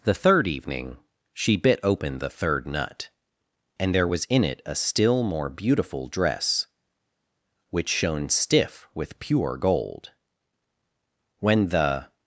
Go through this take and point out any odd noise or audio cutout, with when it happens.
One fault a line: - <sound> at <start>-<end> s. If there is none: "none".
none